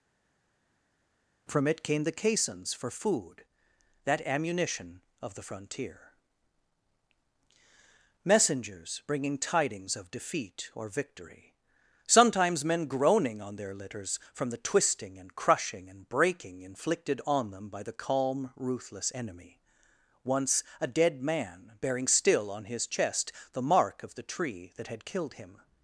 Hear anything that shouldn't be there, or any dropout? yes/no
no